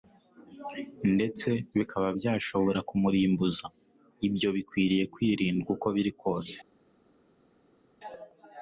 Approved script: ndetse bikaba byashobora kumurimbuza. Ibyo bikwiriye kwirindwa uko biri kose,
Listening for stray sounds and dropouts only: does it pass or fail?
pass